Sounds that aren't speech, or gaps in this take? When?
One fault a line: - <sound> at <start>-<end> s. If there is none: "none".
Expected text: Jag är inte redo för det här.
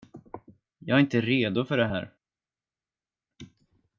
none